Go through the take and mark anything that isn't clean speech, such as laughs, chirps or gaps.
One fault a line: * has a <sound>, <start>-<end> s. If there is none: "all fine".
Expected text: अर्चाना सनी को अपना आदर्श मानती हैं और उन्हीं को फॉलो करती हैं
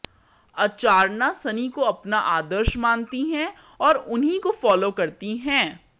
all fine